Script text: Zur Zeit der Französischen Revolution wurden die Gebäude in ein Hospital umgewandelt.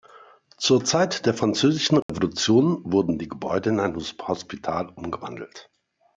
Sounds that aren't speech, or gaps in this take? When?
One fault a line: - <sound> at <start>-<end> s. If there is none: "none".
- dropout at 2.0-2.1 s